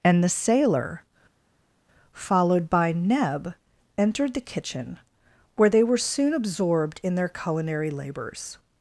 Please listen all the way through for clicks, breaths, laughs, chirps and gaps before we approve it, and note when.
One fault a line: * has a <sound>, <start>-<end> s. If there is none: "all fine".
all fine